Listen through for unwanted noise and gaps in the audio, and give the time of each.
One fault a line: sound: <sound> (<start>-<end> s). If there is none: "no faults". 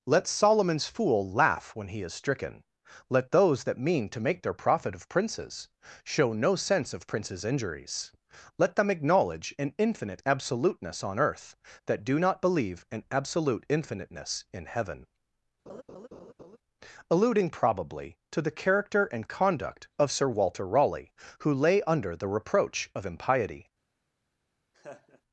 sound: laugh (15.7-16.6 s)
sound: laugh (24.7-25.2 s)